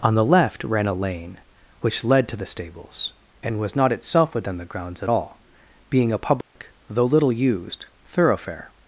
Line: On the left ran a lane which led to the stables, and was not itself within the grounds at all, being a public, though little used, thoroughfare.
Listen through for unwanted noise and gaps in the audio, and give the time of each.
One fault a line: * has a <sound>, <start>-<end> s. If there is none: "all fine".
* has a dropout, 6.4-6.6 s